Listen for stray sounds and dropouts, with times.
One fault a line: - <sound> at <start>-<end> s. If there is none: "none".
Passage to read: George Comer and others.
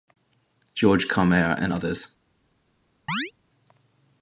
- chirp at 3.1-3.3 s